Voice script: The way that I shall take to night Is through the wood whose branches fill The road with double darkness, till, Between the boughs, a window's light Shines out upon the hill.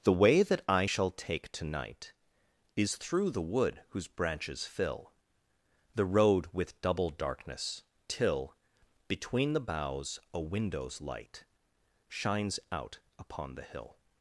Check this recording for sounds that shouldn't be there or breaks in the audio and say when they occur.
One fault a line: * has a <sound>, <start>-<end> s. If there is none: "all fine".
all fine